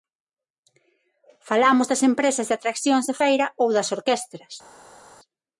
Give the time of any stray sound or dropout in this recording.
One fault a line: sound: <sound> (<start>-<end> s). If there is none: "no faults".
no faults